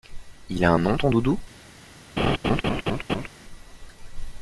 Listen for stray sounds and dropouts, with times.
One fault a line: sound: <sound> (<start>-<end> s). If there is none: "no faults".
sound: laugh (2.2-3.3 s)